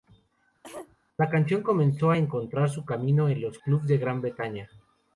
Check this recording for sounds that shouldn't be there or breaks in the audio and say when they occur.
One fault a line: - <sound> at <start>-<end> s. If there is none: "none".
- cough at 0.6-1.0 s